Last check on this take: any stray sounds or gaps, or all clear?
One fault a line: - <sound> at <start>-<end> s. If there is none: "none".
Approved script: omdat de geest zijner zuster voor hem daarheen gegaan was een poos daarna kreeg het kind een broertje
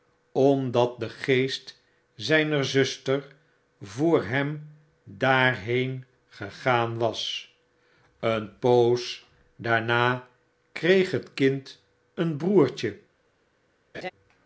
- laugh at 13.9-14.1 s